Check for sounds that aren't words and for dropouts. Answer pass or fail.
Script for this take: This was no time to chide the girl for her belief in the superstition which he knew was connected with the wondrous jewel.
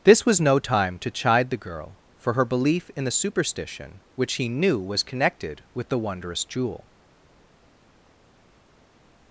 pass